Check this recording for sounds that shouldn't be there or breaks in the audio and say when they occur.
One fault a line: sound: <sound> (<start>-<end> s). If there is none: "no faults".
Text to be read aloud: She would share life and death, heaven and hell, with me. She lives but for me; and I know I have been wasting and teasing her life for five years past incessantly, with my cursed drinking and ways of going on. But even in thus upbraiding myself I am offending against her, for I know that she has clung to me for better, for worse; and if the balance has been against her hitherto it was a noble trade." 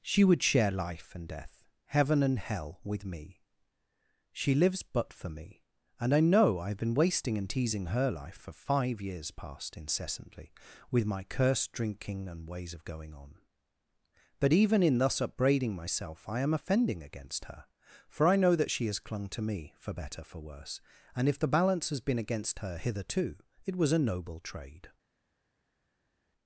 no faults